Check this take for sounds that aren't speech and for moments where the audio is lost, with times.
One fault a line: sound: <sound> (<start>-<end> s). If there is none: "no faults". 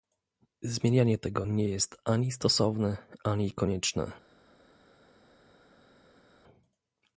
no faults